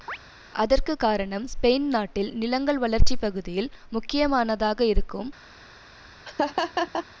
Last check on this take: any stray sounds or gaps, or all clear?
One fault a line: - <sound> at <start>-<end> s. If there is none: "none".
- chirp at 0.1-0.2 s
- laugh at 6.2-7.1 s